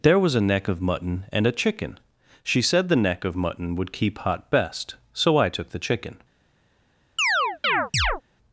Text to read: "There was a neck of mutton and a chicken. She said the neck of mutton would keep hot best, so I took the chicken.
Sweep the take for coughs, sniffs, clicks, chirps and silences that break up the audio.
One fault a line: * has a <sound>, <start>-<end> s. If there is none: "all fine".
* has a chirp, 7.2-8.2 s